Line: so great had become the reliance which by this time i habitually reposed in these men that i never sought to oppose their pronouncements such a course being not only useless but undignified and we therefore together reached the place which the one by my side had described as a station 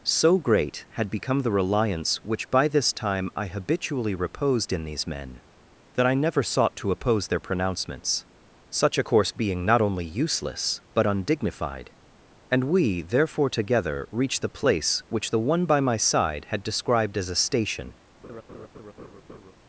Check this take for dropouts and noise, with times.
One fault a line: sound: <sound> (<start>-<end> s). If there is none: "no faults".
sound: laugh (18.2-19.5 s)